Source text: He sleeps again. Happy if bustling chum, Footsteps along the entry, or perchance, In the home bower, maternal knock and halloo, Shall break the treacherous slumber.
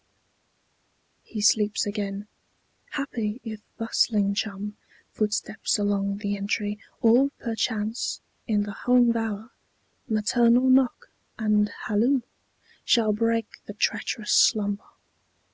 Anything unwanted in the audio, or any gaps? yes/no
no